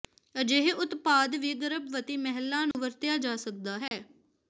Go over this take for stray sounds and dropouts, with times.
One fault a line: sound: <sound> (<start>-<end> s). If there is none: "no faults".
sound: dropout (2.7-2.7 s)
sound: dropout (3.9-3.9 s)